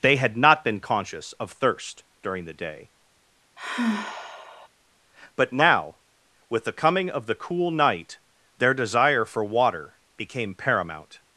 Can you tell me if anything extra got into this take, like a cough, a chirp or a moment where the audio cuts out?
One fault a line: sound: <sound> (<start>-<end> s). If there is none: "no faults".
sound: sigh (3.6-4.7 s)